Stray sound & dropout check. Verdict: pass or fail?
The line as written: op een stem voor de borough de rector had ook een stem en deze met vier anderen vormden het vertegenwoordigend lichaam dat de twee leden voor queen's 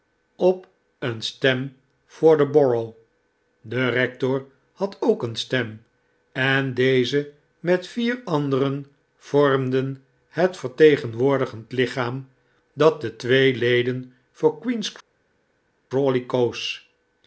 pass